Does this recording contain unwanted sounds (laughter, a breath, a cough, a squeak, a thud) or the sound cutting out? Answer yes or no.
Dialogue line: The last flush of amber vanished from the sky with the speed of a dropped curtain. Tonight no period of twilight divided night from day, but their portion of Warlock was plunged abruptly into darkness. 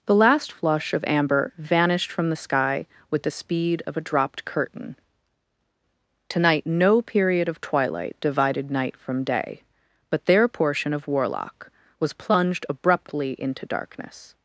no